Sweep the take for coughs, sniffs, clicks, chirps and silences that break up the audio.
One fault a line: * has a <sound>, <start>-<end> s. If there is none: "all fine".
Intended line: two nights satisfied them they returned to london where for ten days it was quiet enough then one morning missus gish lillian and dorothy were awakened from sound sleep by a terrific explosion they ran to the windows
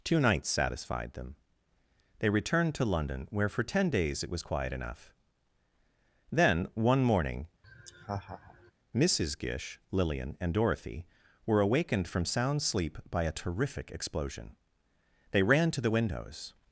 * has a laugh, 7.6-8.7 s